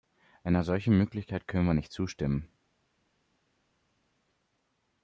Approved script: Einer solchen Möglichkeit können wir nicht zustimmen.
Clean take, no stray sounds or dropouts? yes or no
yes